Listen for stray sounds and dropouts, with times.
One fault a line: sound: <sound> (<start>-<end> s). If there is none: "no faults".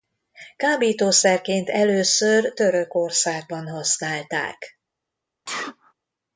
sound: sneeze (5.5-5.9 s)